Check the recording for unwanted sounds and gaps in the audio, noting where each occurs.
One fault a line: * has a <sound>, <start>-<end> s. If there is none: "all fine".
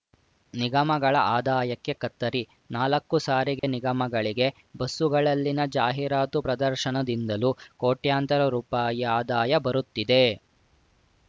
* has a dropout, 3.6-3.6 s